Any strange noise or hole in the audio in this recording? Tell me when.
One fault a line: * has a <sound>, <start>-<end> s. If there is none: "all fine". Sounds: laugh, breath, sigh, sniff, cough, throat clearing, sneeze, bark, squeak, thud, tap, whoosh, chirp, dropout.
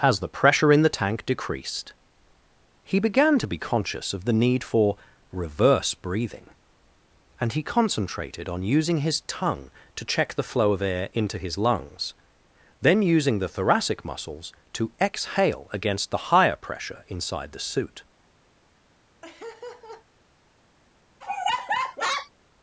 * has a laugh, 19.2-20.1 s
* has a laugh, 21.2-22.3 s